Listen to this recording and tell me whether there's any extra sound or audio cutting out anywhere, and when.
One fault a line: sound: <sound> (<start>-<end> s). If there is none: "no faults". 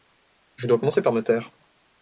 no faults